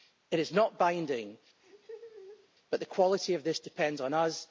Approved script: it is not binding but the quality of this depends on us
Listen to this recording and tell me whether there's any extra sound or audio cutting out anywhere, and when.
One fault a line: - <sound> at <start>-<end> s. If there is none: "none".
- laugh at 1.6-2.5 s